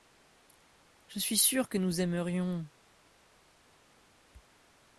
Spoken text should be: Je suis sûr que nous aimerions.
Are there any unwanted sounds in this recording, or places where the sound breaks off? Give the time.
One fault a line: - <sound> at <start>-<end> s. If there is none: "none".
none